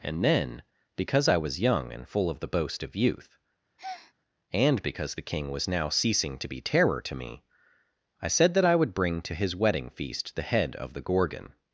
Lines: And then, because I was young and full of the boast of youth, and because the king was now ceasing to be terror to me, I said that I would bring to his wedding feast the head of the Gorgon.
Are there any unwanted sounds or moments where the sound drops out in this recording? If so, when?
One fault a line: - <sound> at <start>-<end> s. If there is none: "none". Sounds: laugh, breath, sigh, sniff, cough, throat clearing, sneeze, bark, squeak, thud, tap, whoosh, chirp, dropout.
- breath at 3.8-4.1 s